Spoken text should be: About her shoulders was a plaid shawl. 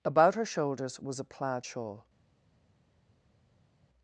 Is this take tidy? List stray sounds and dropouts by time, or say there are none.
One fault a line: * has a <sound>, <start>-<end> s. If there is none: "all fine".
all fine